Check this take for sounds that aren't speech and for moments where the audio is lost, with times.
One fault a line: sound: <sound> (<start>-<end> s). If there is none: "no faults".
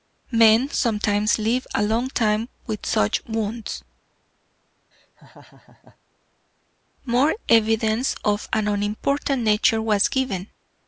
sound: laugh (4.9-6.0 s)